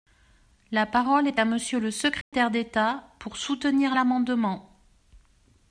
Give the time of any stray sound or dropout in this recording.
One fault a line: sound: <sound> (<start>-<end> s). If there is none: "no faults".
sound: dropout (2.2-2.3 s)